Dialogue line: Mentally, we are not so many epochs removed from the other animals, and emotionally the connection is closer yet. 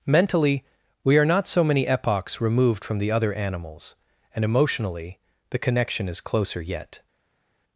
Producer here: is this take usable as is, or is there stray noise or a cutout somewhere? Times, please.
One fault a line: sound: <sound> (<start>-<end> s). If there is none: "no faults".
no faults